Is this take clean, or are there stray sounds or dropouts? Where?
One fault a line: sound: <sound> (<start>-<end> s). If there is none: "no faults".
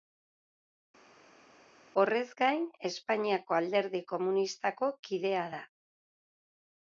no faults